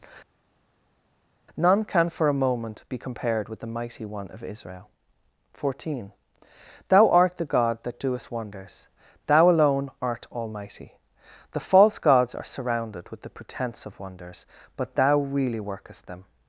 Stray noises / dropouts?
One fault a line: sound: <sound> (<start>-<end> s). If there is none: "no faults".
no faults